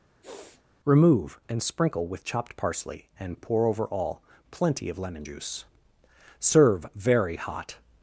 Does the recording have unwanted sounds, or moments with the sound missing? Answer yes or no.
yes